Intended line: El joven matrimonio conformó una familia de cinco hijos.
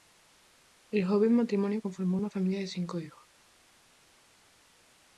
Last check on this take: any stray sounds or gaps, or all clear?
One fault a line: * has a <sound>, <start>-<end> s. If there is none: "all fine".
all fine